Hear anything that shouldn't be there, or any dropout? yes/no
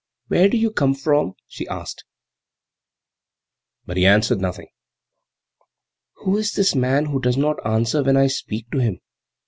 no